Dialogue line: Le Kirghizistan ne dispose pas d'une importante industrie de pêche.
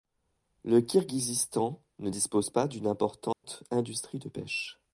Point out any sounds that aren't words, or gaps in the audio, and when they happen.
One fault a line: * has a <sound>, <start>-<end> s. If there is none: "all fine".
* has a dropout, 3.3-3.4 s